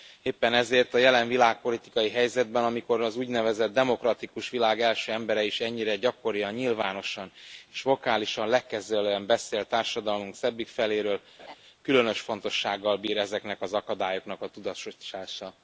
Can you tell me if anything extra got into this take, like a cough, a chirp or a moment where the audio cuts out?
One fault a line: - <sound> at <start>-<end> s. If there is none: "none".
- laugh at 11.4-11.6 s